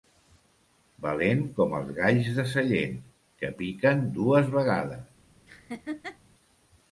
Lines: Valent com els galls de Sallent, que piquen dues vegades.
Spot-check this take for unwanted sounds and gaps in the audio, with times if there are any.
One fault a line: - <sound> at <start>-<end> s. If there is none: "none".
- laugh at 5.5-6.2 s